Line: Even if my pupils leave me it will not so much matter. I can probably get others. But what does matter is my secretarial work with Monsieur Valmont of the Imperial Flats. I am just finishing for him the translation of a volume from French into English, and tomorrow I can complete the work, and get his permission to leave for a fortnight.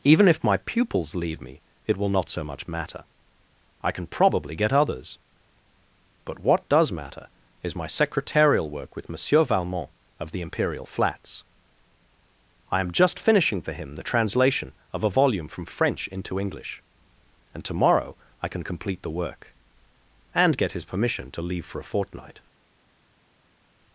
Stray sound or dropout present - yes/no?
no